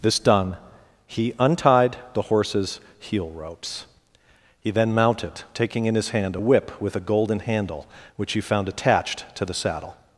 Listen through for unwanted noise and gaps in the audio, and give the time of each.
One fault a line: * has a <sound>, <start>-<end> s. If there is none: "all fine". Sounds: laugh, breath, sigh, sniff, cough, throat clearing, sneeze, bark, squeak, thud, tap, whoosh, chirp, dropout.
all fine